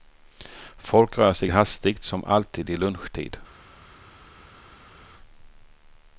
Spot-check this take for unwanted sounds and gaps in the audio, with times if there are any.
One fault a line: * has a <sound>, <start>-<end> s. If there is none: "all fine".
all fine